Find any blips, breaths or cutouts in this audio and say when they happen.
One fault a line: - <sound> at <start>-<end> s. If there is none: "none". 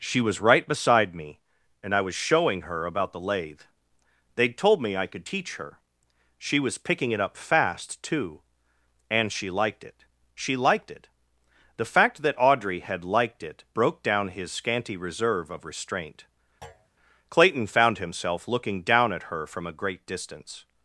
- thud at 16.6-16.9 s